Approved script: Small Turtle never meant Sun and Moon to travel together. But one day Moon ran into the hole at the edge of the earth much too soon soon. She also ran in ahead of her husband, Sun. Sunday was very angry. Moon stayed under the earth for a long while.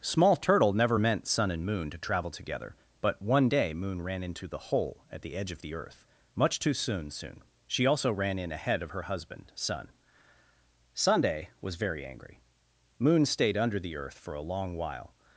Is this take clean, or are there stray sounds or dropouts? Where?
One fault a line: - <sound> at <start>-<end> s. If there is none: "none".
none